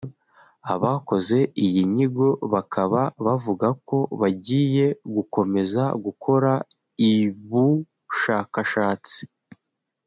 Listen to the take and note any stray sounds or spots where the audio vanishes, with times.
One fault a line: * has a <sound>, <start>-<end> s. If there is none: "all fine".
all fine